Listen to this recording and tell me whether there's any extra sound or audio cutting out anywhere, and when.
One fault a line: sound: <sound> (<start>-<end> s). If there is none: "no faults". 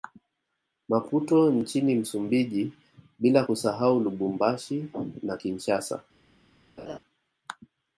sound: laugh (6.8-7.0 s)